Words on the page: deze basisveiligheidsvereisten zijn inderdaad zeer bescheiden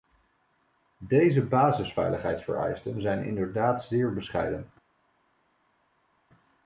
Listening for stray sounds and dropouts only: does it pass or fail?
pass